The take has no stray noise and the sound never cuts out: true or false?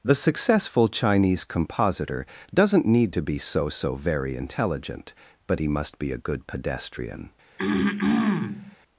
false